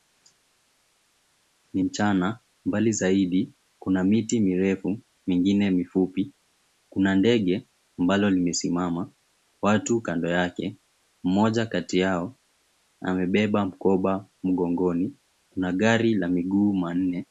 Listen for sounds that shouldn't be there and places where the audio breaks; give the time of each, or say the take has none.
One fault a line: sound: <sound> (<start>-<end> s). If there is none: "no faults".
no faults